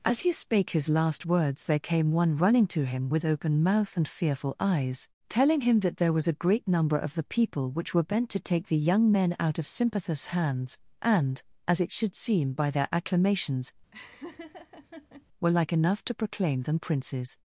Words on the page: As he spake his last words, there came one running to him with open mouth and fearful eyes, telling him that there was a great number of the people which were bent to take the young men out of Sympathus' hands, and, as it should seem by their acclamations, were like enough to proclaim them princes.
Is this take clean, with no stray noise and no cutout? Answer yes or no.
no